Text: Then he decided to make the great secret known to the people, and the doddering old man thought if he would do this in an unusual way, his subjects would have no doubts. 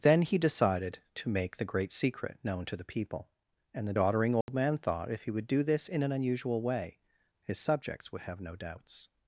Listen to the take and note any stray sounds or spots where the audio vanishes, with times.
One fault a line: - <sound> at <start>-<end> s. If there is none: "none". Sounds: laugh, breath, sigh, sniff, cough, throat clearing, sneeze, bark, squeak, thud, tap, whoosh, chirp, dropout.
- dropout at 4.4-4.5 s